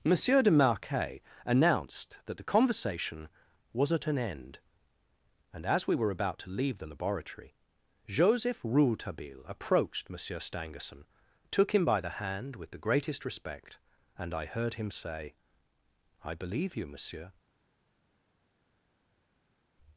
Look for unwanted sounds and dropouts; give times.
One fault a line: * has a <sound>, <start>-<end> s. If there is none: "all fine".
all fine